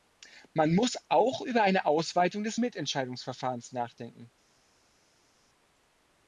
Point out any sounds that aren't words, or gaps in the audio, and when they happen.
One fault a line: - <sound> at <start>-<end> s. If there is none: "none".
none